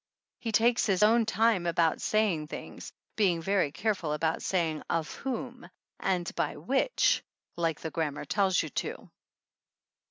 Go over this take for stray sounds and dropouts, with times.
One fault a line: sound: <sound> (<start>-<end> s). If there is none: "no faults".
no faults